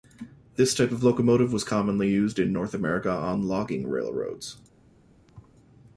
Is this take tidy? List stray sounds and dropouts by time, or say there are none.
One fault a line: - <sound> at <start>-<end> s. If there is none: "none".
- thud at 5.3-5.6 s